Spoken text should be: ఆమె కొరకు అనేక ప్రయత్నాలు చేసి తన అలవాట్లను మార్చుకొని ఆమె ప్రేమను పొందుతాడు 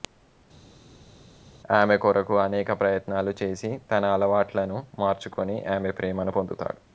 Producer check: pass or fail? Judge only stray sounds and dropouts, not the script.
pass